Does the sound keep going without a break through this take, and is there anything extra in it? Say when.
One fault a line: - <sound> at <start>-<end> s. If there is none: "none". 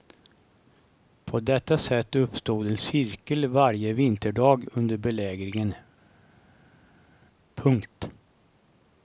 none